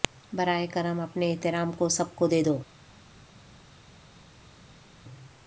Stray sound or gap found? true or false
false